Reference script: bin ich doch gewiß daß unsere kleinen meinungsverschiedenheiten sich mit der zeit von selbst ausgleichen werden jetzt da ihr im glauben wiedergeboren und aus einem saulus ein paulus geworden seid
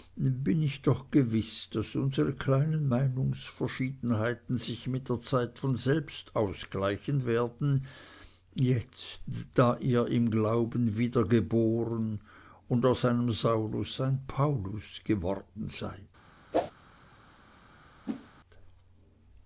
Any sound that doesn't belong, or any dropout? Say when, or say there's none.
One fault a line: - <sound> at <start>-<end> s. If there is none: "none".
- whoosh at 16.5-16.7 s
- whoosh at 18.1-18.3 s